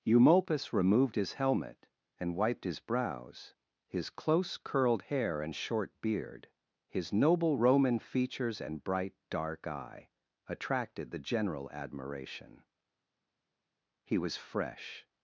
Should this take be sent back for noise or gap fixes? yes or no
no